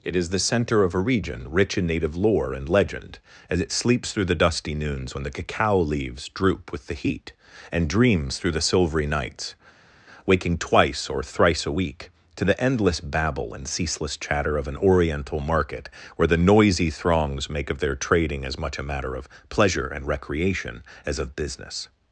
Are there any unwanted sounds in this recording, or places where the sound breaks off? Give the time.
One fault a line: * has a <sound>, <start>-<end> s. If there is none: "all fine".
all fine